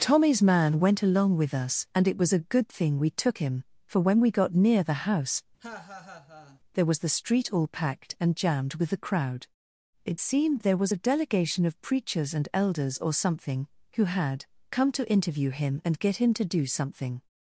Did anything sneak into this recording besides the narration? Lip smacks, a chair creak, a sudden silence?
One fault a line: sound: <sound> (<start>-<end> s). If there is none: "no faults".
sound: laugh (5.6-6.6 s)